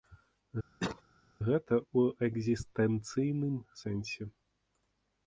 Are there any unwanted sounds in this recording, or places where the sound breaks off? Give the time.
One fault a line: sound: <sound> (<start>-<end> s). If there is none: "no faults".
sound: cough (0.8-1.0 s)